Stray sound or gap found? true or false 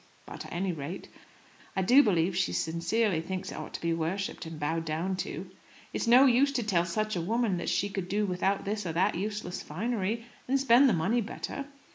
false